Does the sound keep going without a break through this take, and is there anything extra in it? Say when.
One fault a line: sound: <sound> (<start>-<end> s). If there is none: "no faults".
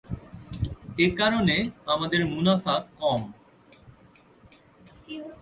no faults